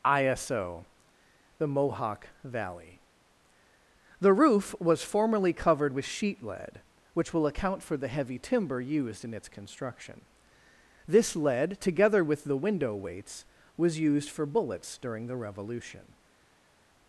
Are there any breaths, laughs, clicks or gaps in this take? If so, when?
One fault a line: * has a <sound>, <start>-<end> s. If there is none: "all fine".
all fine